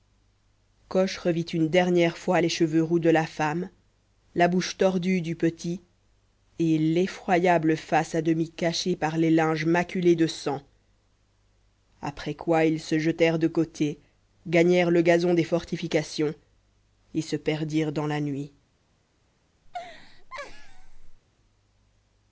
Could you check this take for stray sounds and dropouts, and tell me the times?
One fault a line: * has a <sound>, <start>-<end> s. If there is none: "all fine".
* has a laugh, 19.7-21.2 s